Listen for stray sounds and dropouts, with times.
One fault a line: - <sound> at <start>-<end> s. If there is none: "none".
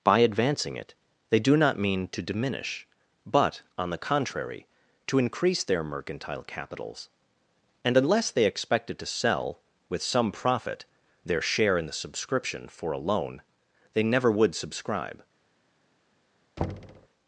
- thud at 16.6-17.1 s